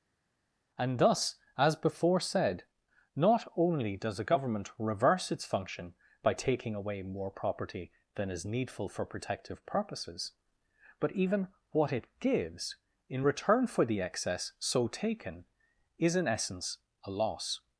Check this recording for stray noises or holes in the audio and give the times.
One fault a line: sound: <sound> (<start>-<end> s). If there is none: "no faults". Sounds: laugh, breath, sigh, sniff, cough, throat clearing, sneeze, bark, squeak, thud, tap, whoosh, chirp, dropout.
no faults